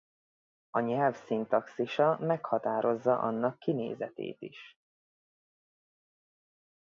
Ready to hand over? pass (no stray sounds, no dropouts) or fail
pass